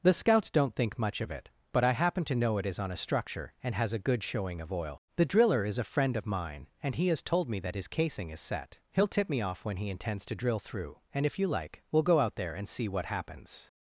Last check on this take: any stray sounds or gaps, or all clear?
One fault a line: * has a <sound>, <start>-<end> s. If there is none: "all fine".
all fine